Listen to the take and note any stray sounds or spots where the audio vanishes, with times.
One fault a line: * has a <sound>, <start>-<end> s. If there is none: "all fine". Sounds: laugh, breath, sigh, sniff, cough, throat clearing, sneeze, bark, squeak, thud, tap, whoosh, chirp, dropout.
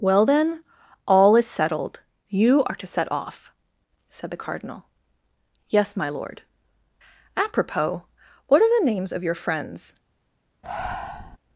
* has a breath, 10.6-11.4 s